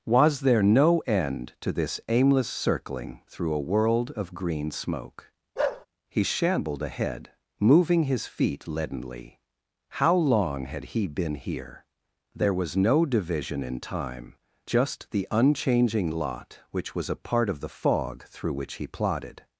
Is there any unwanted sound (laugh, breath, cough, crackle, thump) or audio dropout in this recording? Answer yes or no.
yes